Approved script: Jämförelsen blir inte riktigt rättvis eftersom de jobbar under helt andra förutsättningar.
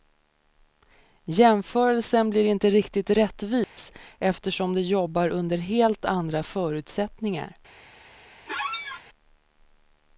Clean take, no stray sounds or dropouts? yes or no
no